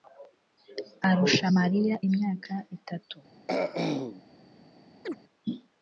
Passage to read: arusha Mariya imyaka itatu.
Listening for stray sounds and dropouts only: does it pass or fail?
fail